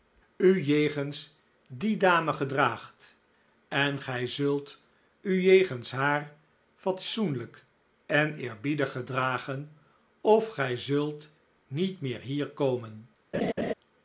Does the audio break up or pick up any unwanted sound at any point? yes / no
yes